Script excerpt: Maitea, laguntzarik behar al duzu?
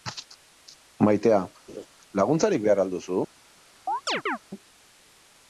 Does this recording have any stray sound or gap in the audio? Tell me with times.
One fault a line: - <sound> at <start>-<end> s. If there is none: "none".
- laugh at 1.7-1.9 s
- chirp at 3.9-4.4 s